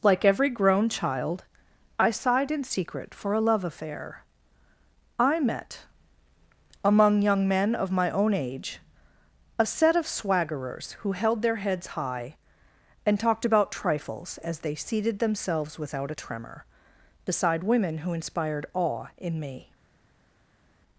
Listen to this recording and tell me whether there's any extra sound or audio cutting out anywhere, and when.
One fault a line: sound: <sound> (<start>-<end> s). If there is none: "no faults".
no faults